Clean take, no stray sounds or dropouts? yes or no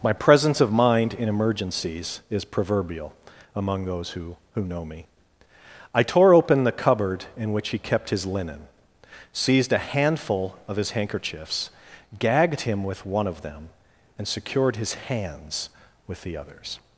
yes